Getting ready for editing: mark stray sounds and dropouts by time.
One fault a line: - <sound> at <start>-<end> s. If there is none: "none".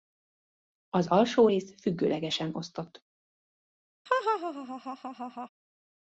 - laugh at 4.1-5.5 s